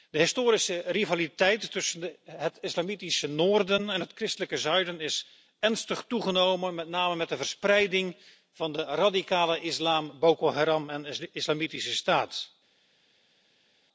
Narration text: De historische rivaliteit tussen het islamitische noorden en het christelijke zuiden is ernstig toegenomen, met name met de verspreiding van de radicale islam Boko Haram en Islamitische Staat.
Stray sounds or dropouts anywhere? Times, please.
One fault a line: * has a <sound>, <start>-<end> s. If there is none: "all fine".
all fine